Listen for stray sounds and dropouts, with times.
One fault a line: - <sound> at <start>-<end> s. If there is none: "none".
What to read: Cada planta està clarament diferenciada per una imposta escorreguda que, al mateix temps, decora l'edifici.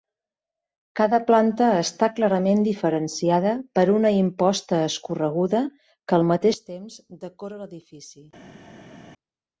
none